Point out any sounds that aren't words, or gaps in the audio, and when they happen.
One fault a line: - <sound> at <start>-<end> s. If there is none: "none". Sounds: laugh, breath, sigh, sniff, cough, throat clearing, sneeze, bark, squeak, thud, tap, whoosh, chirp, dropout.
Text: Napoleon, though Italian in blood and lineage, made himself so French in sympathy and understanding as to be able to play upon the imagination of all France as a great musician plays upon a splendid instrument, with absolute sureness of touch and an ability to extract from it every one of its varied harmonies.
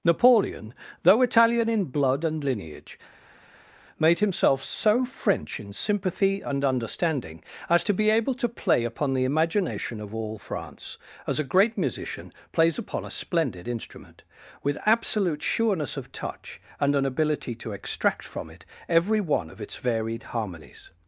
none